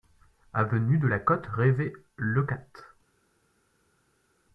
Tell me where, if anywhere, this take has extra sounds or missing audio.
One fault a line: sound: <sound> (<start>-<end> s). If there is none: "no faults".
no faults